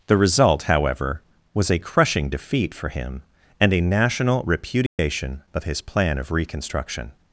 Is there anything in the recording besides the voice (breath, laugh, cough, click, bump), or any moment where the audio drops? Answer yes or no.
yes